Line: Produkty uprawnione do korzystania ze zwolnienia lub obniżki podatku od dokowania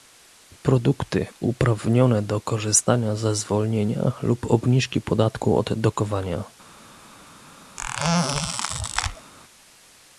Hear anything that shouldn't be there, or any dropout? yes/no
yes